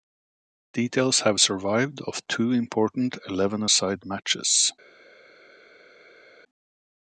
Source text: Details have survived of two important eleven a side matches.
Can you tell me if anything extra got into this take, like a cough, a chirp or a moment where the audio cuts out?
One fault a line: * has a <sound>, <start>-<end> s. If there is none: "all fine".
all fine